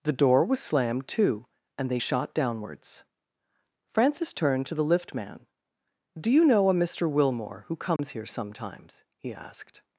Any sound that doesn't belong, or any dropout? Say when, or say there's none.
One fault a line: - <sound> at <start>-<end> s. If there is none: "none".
- dropout at 8.0-8.0 s